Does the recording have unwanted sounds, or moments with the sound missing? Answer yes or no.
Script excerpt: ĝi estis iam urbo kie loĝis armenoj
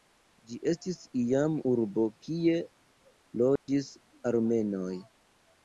yes